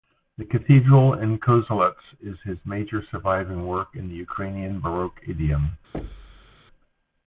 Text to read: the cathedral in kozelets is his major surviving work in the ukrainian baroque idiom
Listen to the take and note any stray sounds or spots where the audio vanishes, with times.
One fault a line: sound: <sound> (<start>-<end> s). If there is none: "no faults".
sound: thud (5.9-6.6 s)